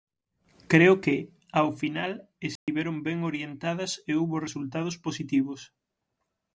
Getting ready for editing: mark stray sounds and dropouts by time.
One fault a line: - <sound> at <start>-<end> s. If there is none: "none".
- dropout at 2.6-2.7 s